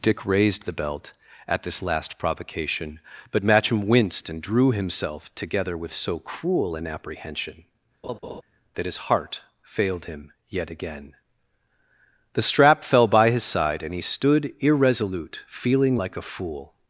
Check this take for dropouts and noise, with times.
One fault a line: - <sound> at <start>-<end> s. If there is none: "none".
- laugh at 8.0-8.4 s